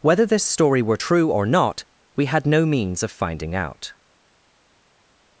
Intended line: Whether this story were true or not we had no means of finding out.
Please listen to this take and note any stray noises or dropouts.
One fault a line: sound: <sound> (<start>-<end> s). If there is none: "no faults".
no faults